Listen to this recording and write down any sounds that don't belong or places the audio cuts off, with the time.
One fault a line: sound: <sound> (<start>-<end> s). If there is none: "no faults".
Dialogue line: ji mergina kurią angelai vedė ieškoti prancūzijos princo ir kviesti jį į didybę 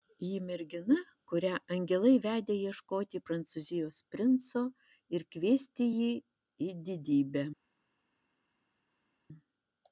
no faults